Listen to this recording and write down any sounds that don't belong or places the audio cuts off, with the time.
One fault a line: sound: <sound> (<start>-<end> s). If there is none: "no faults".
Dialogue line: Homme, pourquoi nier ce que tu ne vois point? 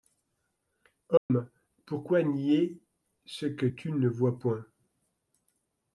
sound: dropout (1.2-1.3 s)